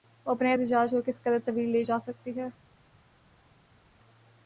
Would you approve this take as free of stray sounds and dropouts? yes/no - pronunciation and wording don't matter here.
yes